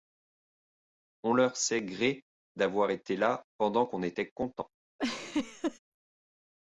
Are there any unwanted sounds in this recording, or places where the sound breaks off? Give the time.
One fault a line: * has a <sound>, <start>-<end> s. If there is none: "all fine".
* has a laugh, 5.0-5.8 s